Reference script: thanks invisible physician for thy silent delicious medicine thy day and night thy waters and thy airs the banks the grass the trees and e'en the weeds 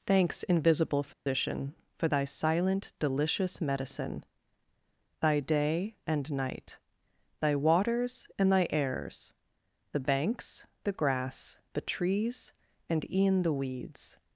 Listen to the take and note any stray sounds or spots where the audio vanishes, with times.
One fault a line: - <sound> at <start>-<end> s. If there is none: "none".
- dropout at 1.1-1.3 s